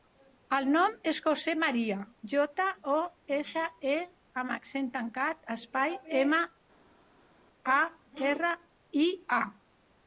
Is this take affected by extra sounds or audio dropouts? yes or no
no